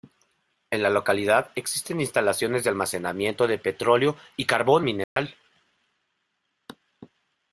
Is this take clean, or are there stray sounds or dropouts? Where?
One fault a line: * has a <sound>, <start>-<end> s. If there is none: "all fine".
* has a dropout, 5.0-5.2 s